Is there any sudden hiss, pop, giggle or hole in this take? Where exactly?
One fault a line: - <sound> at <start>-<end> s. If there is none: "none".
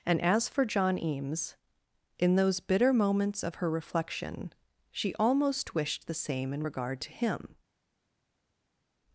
none